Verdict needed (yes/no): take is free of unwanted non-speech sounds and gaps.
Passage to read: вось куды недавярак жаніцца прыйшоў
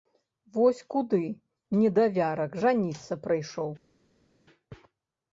yes